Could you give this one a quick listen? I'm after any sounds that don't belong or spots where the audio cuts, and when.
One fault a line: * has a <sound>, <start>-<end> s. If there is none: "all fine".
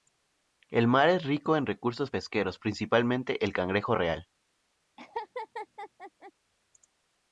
* has a laugh, 5.0-6.3 s